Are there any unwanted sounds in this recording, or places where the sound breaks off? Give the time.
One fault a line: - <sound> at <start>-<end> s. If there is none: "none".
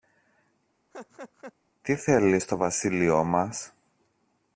- laugh at 0.9-1.5 s